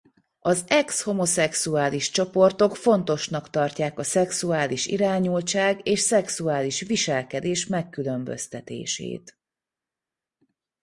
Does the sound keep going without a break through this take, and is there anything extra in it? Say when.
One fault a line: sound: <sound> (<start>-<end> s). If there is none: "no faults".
no faults